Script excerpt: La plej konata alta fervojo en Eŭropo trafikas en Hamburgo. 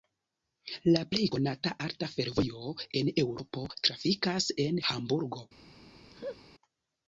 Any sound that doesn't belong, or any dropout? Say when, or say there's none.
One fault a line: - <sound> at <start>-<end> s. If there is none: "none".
- laugh at 6.1-6.4 s